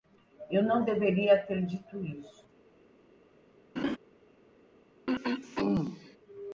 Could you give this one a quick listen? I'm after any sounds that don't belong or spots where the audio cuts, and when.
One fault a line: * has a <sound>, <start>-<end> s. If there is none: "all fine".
* has a laugh, 3.8-4.0 s
* has a throat clearing, 5.1-6.2 s